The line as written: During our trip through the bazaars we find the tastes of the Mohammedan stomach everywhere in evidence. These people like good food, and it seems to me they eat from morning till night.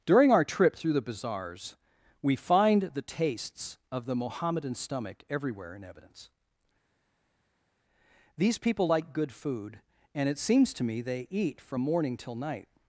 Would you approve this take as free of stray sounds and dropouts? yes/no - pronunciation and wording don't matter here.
yes